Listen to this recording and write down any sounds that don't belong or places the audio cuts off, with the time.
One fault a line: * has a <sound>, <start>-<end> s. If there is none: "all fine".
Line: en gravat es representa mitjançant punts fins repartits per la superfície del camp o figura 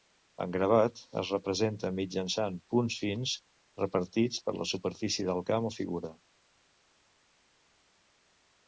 all fine